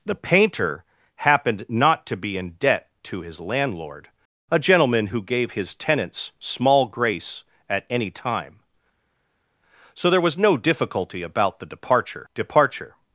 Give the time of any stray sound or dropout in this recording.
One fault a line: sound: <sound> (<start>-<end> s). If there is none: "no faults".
no faults